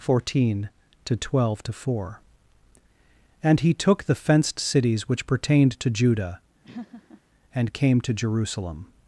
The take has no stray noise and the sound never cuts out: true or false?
false